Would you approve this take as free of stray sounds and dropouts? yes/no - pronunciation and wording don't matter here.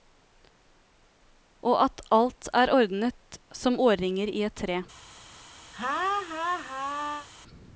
no